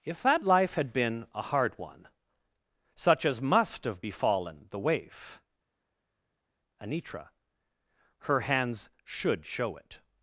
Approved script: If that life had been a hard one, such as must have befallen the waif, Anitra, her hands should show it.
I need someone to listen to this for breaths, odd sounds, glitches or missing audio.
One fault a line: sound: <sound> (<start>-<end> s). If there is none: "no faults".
no faults